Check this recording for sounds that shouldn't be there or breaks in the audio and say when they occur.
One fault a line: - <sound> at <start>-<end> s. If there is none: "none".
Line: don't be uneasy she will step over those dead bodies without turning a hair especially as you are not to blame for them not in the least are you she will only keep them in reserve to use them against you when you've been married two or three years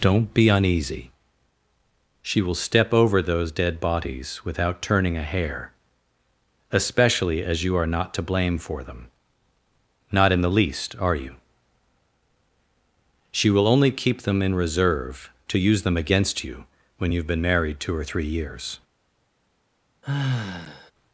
- sigh at 20.0-20.9 s